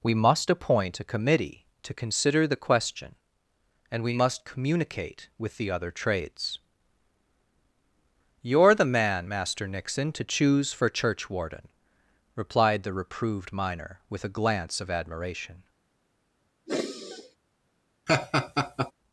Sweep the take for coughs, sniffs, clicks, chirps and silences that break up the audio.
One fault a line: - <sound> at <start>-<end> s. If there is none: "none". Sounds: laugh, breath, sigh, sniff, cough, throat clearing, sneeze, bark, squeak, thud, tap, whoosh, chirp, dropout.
- sigh at 16.7-17.4 s
- laugh at 18.1-18.9 s